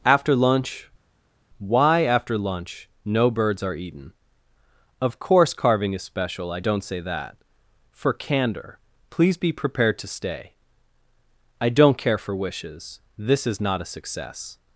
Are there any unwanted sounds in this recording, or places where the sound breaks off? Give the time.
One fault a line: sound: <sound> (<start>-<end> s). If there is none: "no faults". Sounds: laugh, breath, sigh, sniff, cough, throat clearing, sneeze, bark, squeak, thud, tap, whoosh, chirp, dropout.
no faults